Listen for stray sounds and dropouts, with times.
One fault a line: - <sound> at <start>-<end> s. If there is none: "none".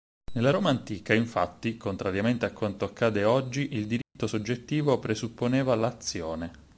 - dropout at 4.0-4.2 s